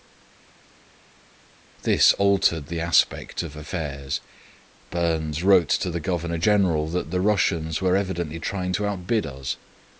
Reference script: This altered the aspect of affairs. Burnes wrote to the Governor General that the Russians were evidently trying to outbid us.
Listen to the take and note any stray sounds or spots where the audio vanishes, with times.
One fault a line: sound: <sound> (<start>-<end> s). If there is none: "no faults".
no faults